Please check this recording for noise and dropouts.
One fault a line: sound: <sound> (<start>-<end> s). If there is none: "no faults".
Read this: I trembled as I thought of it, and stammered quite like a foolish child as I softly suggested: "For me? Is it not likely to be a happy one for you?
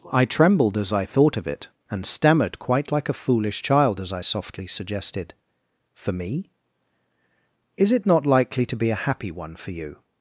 no faults